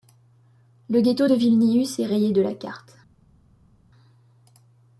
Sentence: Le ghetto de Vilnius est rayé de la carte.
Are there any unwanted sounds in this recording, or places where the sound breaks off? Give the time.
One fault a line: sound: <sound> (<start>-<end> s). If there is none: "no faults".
no faults